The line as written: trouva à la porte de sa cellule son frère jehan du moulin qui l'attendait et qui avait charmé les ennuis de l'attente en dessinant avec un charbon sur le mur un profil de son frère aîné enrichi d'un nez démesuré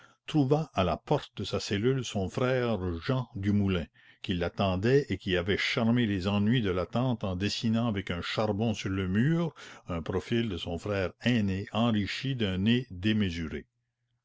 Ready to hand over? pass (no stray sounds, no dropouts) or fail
pass